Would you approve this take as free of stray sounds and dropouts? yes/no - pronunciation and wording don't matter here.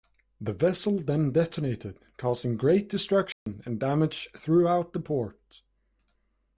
no